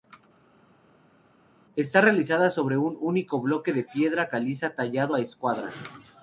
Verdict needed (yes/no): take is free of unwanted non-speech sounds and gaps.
yes